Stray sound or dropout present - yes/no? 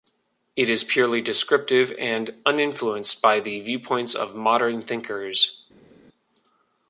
no